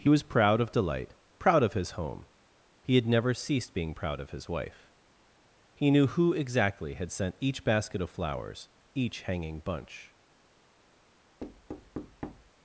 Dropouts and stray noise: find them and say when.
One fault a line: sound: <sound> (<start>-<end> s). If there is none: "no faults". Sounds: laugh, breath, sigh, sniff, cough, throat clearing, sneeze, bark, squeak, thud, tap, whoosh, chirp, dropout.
sound: thud (11.4-12.5 s)